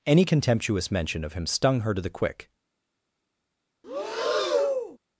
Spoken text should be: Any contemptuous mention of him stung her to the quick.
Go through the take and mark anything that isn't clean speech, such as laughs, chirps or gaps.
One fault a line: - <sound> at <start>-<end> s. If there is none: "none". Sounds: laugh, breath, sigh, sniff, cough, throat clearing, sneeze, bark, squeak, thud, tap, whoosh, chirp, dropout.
- breath at 3.8-5.0 s